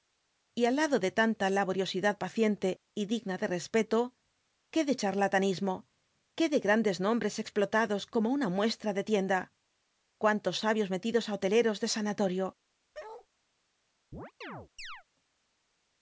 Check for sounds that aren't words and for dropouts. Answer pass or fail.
fail